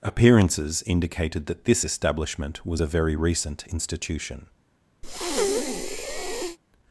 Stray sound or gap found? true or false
true